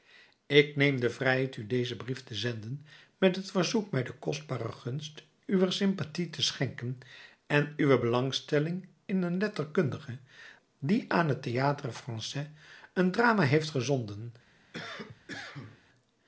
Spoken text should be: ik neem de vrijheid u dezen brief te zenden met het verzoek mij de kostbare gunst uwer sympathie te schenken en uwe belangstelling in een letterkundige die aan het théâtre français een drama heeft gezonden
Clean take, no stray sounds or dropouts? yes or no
no